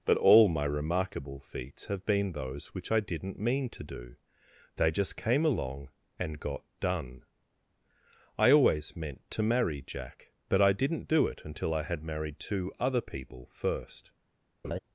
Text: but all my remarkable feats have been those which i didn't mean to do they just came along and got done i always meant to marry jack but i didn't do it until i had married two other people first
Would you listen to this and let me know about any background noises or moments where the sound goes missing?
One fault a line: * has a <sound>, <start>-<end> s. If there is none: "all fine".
* has a laugh, 14.6-14.8 s